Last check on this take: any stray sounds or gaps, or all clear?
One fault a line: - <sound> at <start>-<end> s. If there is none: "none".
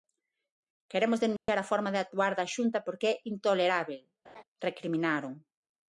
- dropout at 1.4-1.5 s
- laugh at 4.2-4.4 s